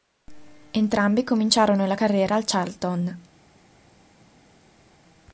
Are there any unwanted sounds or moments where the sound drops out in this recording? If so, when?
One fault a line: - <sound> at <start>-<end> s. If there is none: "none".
none